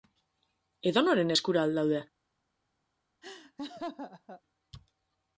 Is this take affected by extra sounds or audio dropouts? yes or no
yes